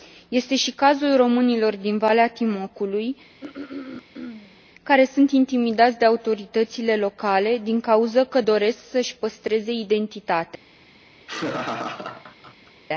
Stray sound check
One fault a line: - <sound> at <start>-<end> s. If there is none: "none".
- throat clearing at 3.4-4.6 s
- laugh at 11.2-12.7 s